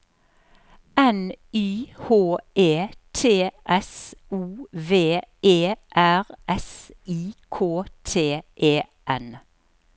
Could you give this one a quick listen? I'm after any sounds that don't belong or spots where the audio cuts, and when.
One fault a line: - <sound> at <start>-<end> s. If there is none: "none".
none